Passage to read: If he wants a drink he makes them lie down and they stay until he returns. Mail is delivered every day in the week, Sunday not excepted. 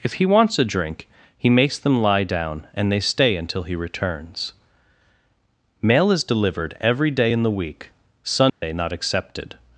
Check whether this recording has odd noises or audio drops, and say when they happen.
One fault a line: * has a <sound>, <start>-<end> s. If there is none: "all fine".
* has a dropout, 8.5-8.6 s